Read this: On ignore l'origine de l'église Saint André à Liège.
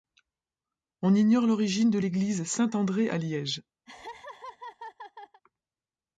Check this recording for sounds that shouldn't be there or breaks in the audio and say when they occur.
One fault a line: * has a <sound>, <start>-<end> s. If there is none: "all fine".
* has a laugh, 3.9-5.4 s